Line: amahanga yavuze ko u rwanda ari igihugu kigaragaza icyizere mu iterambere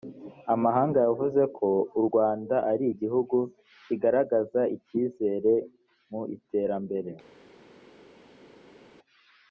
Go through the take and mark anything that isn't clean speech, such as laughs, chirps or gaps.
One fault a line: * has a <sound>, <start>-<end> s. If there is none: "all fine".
all fine